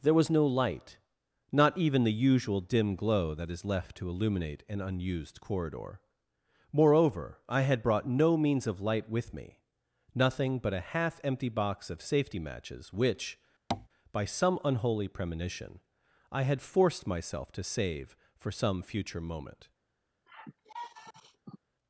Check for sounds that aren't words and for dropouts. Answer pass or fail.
fail